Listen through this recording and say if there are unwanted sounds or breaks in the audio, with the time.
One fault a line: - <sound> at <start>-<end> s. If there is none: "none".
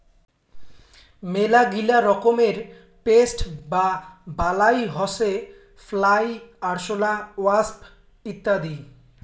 none